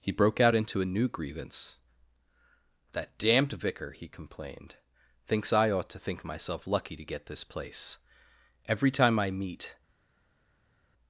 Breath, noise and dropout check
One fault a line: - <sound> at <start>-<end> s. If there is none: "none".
none